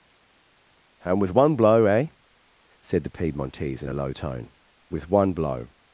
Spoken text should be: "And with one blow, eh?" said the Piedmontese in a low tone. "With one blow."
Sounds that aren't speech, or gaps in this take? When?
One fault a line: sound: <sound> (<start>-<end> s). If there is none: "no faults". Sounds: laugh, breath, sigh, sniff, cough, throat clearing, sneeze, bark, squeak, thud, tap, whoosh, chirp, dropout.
no faults